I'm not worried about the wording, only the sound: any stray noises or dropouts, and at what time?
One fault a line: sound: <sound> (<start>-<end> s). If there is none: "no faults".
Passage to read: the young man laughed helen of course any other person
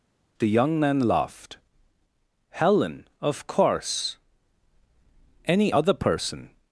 no faults